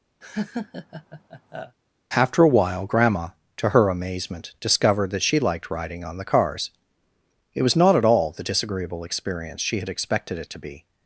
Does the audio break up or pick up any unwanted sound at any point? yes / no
yes